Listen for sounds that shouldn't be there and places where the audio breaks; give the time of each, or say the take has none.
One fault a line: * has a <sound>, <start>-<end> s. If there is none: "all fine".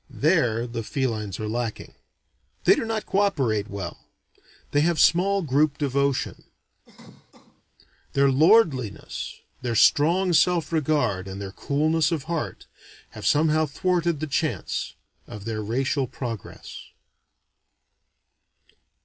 * has a cough, 6.8-7.6 s